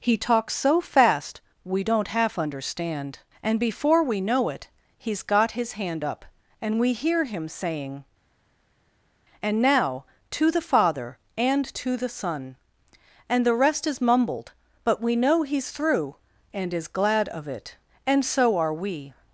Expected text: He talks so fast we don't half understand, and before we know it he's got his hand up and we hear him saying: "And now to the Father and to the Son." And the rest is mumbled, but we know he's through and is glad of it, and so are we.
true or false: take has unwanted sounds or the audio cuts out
false